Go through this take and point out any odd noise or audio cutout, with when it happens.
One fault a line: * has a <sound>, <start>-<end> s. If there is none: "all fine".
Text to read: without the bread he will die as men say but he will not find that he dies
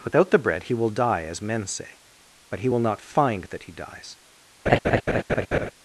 * has a laugh, 4.7-5.7 s